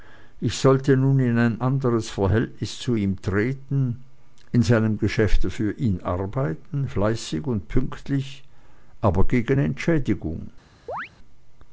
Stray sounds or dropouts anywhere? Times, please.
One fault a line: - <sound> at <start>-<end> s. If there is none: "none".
- chirp at 10.9-11.1 s